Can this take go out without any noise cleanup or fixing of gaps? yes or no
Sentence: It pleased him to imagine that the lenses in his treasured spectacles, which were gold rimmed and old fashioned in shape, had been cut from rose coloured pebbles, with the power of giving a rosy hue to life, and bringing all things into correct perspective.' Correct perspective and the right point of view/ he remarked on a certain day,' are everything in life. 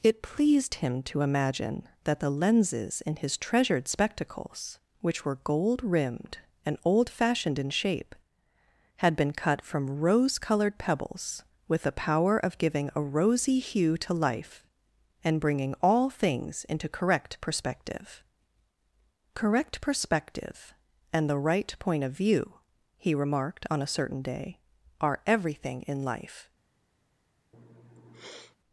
no